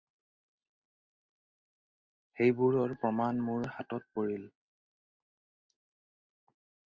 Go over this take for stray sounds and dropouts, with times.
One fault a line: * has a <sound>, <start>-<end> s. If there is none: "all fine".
all fine